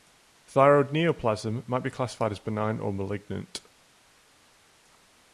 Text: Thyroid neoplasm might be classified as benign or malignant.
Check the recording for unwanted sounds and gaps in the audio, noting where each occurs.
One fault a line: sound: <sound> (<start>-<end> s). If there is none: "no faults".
no faults